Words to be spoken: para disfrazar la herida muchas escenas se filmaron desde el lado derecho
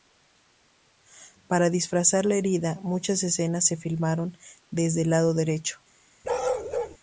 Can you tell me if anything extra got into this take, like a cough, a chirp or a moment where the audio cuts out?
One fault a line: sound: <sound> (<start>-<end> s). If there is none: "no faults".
sound: bark (6.2-7.0 s)